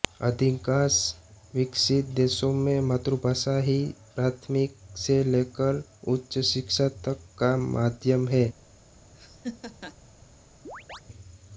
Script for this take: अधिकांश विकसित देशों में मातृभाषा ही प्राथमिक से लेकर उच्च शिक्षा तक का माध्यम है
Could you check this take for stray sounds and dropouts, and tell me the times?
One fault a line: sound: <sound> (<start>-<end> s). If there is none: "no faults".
sound: laugh (9.1-10.0 s)
sound: chirp (10.6-11.0 s)